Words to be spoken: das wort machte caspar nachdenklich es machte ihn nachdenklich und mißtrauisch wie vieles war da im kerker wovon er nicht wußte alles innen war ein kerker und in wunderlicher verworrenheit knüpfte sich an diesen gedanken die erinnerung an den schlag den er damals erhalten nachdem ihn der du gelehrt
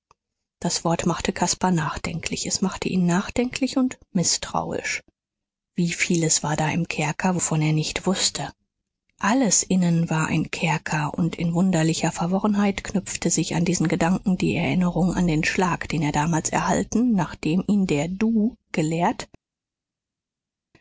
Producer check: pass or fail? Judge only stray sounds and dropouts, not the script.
pass